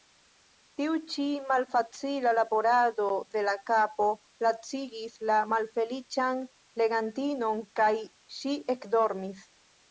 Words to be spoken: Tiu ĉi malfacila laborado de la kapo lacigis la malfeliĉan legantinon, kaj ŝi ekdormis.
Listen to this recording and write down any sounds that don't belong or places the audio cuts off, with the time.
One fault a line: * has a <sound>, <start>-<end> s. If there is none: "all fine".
all fine